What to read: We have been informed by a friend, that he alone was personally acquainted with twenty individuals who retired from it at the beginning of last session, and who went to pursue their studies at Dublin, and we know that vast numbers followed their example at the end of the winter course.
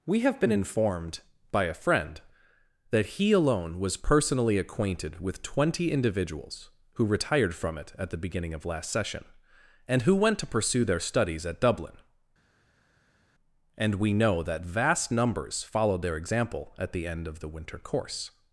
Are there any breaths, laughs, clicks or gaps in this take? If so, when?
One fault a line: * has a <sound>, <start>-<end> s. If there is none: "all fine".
all fine